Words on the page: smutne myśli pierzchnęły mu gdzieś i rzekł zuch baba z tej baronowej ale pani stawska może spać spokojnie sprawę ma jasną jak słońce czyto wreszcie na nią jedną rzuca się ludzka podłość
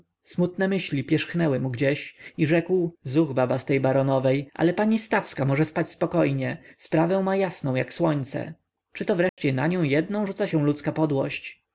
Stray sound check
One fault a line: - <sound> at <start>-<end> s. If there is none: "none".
- dropout at 9.3-9.4 s